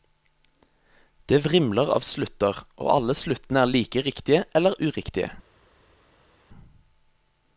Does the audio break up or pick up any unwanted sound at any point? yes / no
no